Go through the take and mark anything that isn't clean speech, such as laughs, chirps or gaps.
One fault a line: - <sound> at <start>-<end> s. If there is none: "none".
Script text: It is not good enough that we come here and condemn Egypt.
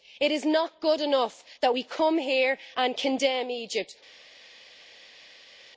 none